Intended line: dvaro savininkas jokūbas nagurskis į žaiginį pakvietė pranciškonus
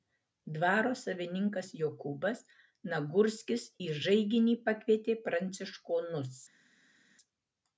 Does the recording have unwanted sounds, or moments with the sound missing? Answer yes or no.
no